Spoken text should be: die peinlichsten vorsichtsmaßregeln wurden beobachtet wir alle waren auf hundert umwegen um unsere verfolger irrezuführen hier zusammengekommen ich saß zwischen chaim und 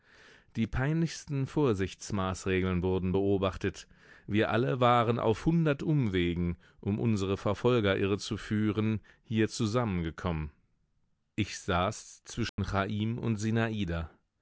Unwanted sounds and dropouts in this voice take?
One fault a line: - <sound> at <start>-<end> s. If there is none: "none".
- dropout at 12.5-12.6 s